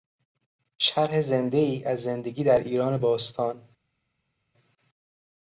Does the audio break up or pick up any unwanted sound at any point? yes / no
no